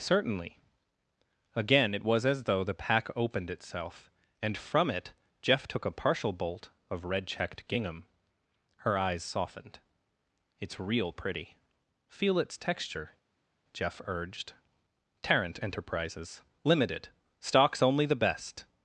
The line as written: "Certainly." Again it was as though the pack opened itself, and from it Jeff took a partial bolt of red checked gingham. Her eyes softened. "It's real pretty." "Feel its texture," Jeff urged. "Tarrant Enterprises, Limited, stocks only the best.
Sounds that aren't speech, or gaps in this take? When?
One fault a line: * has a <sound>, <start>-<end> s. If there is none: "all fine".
all fine